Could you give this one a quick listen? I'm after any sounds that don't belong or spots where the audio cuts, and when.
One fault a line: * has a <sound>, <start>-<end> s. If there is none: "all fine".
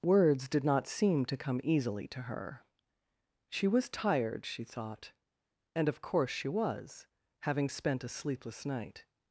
all fine